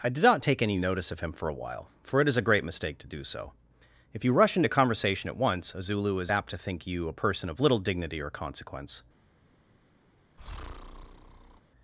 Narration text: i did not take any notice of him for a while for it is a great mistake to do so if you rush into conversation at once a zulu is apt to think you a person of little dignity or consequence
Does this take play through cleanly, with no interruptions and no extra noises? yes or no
no